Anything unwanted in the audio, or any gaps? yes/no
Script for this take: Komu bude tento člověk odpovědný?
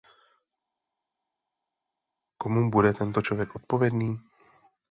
no